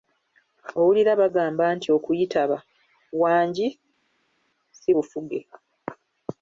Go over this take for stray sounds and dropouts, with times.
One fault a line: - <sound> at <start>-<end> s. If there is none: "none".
none